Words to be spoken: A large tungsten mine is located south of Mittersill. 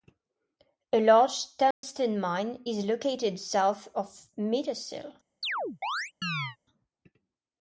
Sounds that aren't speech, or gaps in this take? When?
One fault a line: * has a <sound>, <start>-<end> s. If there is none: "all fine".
* has a dropout, 1.7-1.8 s
* has a chirp, 5.4-6.6 s